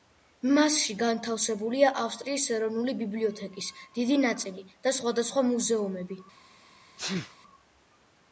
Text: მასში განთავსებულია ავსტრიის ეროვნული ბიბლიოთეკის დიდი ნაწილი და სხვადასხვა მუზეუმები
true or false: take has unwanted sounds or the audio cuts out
true